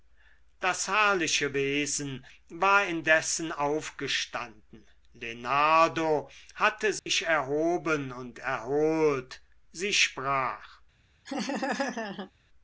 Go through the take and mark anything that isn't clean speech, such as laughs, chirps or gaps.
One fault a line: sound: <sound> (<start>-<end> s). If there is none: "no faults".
sound: dropout (7.0-7.1 s)
sound: laugh (11.3-12.3 s)